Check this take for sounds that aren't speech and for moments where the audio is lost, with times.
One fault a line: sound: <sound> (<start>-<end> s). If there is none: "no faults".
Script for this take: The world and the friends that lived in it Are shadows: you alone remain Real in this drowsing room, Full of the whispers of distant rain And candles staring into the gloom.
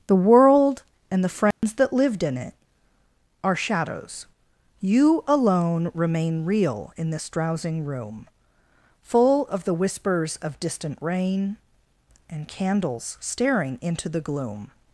sound: dropout (1.5-1.6 s)